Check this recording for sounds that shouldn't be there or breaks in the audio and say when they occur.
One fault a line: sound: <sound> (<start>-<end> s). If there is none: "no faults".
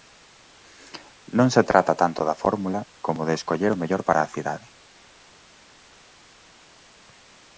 no faults